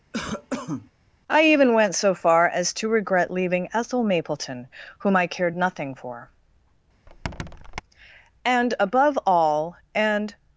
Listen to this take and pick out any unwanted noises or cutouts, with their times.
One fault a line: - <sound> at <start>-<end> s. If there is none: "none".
- cough at 0.1-0.9 s
- squeak at 7.1-7.8 s